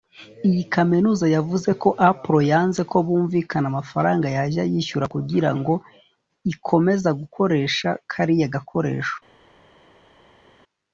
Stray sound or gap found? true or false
false